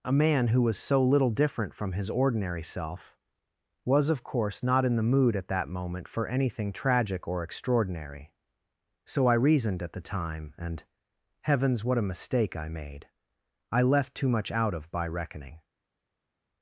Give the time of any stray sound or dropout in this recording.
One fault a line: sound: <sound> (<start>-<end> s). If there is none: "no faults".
no faults